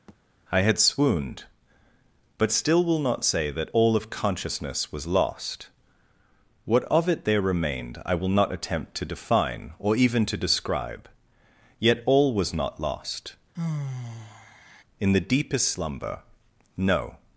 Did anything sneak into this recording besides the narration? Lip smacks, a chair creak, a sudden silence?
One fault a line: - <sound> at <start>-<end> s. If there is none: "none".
- thud at 0.1-0.2 s
- sigh at 13.5-14.8 s